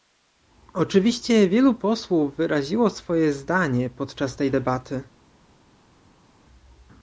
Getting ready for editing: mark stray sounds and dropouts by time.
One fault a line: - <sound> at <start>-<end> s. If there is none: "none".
none